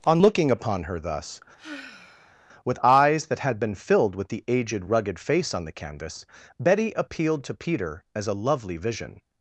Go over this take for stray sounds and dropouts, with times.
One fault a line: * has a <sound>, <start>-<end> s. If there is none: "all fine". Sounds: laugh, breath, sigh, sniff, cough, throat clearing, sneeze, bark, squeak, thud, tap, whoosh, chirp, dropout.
* has a sigh, 1.6-2.4 s